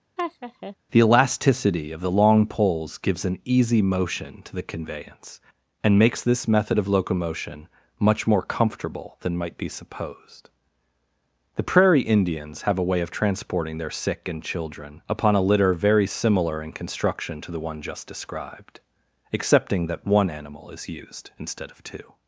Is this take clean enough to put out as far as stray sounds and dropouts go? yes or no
no